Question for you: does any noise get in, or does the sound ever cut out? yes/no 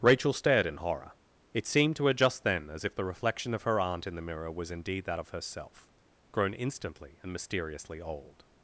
no